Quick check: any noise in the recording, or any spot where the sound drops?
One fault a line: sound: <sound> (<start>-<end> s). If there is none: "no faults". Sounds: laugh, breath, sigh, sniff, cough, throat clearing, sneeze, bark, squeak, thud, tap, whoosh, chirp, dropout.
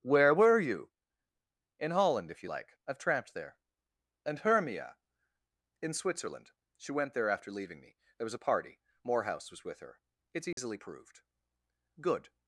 sound: dropout (10.5-10.6 s)